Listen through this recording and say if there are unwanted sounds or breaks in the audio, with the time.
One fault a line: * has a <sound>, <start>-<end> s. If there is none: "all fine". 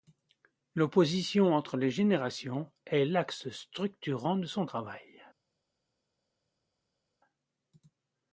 all fine